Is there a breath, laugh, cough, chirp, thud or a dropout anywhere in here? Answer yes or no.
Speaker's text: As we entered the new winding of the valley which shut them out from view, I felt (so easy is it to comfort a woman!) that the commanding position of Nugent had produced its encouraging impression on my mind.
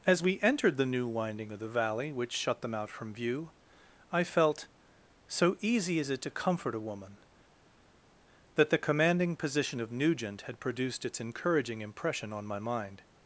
no